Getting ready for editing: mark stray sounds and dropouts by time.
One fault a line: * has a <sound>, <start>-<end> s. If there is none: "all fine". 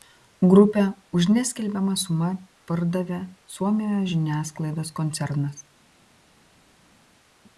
all fine